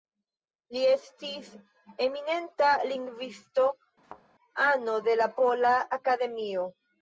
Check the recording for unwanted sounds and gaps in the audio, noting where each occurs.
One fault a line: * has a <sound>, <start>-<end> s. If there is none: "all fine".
* has a thud, 4.0-4.2 s